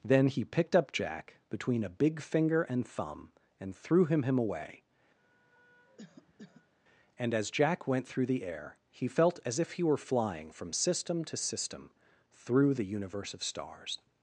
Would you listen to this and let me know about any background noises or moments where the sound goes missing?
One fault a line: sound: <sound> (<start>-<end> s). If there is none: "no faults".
sound: cough (5.2-6.7 s)